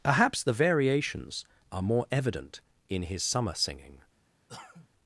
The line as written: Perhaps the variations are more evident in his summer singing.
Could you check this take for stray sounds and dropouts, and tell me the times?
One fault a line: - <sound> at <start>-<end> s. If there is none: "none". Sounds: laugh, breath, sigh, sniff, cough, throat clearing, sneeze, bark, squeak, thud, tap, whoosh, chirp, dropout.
- cough at 4.5-4.9 s